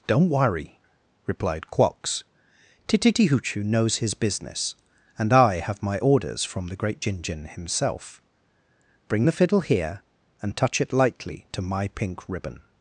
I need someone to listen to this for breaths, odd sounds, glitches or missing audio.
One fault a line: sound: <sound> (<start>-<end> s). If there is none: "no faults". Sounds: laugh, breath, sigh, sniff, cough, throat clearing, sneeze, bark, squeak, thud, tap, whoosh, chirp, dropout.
no faults